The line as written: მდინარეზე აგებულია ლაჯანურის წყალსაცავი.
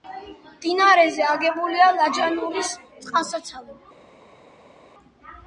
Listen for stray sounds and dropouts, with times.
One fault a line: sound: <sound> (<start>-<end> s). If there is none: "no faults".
no faults